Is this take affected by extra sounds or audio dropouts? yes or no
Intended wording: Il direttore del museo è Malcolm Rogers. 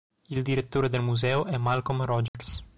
yes